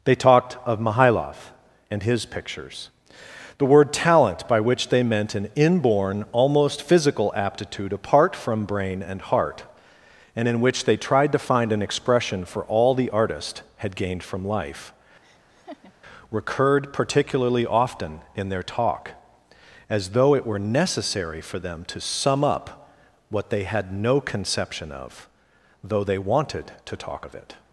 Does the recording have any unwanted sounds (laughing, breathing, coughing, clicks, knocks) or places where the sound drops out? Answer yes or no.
yes